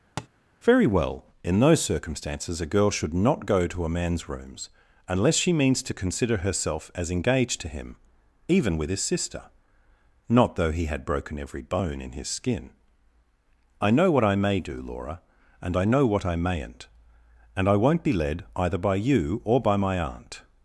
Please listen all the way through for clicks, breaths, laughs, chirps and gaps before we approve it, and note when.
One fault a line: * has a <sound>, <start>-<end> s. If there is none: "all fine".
* has a tap, 0.2-0.3 s